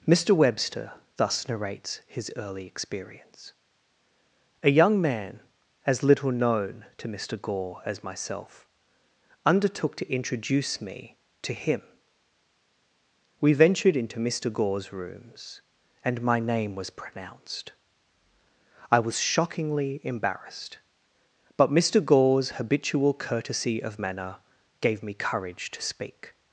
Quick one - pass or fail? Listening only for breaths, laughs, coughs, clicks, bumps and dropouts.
pass